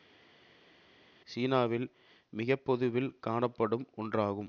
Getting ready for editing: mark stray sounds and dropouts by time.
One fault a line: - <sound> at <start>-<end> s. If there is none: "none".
none